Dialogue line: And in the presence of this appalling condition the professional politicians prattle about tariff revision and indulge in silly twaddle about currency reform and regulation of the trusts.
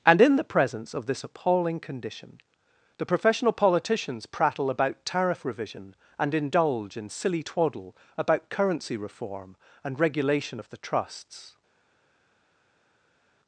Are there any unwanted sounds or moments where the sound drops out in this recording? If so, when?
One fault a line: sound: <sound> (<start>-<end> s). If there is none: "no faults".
no faults